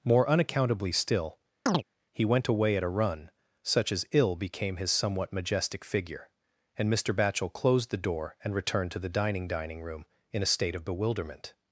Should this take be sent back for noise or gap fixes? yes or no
yes